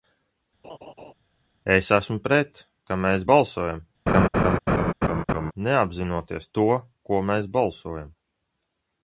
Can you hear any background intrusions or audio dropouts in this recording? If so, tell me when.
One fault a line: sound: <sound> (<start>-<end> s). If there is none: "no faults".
sound: laugh (0.6-1.1 s)
sound: laugh (4.1-5.5 s)